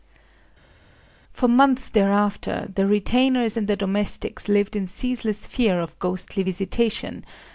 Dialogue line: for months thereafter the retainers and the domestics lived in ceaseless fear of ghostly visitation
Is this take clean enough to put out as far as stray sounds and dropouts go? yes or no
yes